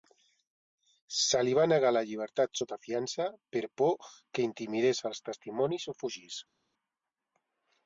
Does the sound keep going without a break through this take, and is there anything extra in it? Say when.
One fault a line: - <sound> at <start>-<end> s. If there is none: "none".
none